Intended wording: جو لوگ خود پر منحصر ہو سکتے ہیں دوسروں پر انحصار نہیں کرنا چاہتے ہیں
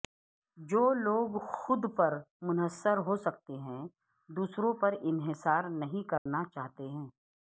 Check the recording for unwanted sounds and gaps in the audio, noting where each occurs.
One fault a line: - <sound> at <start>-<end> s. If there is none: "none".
- dropout at 6.2-6.3 s